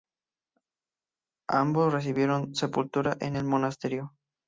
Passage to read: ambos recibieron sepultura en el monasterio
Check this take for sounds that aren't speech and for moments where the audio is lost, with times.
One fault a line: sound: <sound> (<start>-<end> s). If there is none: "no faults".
no faults